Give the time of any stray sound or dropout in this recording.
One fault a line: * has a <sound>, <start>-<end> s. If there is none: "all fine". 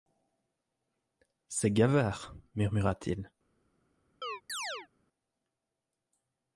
* has a chirp, 4.2-4.9 s